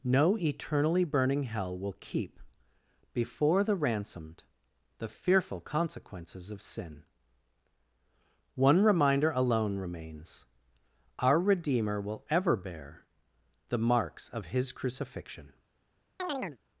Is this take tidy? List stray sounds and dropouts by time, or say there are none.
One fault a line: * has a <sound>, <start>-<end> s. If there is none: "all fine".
* has a chirp, 16.2-16.6 s